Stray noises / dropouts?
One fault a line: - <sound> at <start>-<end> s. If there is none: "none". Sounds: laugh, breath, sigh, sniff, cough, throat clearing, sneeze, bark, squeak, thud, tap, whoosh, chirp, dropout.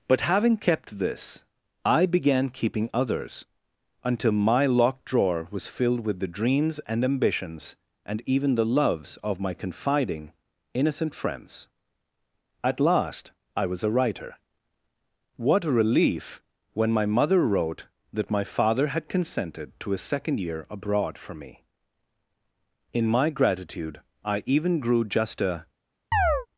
- chirp at 26.1-26.5 s